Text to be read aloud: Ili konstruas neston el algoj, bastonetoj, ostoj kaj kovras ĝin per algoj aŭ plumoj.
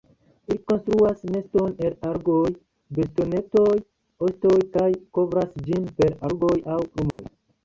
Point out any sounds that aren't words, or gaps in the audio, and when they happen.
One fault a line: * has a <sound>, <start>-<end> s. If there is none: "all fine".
* has a dropout, 7.1-7.2 s